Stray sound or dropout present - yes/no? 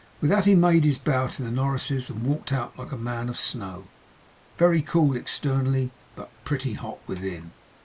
no